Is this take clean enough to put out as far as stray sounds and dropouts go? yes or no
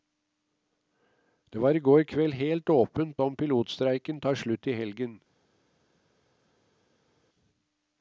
yes